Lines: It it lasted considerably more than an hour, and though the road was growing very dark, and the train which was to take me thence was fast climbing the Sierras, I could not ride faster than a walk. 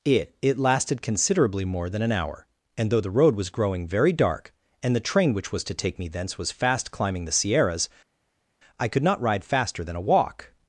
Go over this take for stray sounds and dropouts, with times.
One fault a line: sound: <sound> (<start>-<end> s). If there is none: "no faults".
no faults